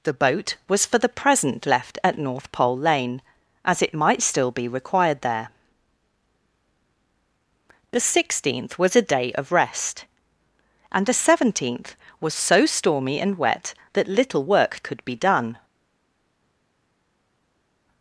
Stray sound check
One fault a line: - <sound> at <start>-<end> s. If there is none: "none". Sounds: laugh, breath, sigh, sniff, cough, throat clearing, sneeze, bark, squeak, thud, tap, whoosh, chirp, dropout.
none